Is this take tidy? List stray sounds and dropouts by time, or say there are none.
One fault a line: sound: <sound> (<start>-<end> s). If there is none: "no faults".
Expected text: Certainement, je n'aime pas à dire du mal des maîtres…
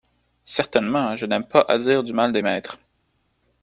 no faults